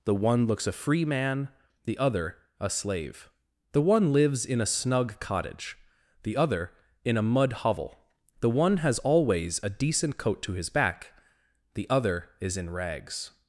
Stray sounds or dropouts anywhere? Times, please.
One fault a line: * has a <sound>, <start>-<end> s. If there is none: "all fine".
all fine